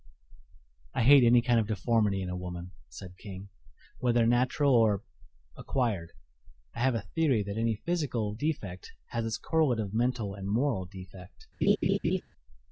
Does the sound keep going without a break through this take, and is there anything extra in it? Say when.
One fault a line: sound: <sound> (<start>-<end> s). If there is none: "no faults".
sound: laugh (11.6-12.2 s)